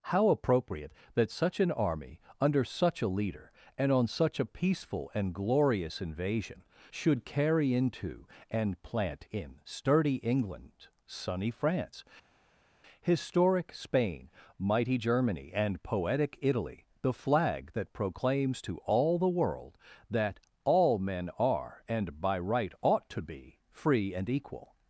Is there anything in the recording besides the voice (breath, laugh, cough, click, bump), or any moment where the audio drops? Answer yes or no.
no